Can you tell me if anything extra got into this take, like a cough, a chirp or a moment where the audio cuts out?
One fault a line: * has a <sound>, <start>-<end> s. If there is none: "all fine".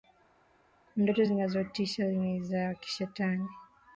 all fine